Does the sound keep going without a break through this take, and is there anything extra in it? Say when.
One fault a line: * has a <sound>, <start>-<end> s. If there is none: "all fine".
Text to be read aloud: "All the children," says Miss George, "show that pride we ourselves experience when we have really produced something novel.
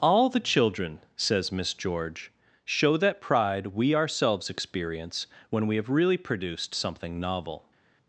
all fine